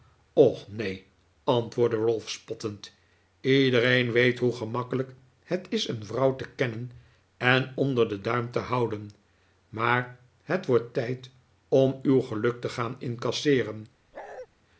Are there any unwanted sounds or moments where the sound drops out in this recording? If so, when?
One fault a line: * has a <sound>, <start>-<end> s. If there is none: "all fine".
* has a bark, 14.1-14.5 s